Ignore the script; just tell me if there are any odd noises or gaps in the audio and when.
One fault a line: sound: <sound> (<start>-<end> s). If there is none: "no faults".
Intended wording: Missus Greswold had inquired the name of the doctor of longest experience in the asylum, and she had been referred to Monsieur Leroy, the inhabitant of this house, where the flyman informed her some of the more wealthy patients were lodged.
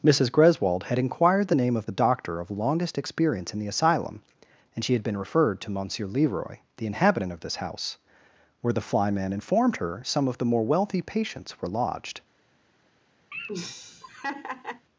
sound: laugh (13.3-14.9 s)